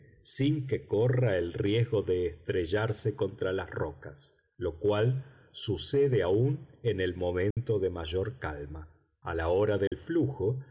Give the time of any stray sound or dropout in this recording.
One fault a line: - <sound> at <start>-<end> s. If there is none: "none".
- dropout at 7.5-7.6 s
- dropout at 9.9-9.9 s